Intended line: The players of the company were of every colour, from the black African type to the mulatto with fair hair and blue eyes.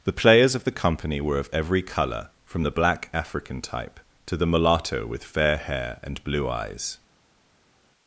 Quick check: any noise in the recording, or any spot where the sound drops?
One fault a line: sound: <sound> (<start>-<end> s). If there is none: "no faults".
no faults